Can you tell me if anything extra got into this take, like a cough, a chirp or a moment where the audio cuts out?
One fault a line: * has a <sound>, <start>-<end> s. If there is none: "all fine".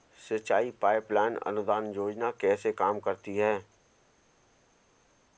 all fine